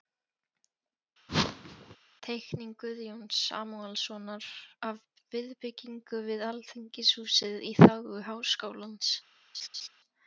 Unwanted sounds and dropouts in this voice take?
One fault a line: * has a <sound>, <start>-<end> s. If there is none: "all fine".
* has a whoosh, 1.3-2.0 s
* has a laugh, 9.5-9.9 s